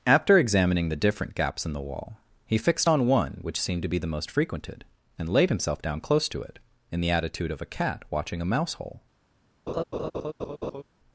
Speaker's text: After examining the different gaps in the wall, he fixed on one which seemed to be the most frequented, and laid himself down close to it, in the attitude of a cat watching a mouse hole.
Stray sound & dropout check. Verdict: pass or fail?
fail